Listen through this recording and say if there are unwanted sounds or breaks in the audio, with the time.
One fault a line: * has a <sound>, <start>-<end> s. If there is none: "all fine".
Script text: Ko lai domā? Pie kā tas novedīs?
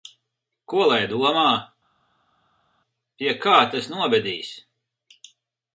all fine